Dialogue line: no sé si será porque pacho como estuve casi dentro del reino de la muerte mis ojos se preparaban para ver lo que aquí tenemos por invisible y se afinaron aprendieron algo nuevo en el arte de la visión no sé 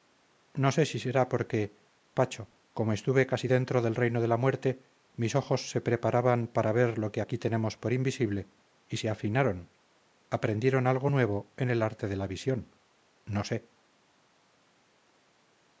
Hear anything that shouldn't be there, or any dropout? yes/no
no